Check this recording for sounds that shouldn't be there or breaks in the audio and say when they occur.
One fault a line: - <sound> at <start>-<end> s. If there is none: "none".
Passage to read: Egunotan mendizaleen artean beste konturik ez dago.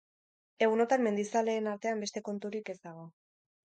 none